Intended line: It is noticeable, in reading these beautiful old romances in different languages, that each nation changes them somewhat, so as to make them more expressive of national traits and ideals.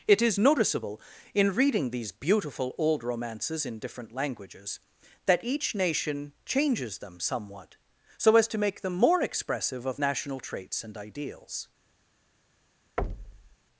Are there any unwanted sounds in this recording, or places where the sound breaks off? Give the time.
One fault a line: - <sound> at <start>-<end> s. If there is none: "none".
- thud at 13.0-13.6 s